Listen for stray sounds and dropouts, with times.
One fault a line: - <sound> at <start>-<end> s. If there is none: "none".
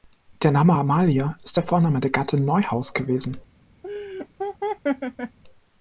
- laugh at 3.8-5.4 s